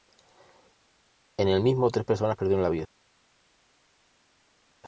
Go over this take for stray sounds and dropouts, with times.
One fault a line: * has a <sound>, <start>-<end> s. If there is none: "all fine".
all fine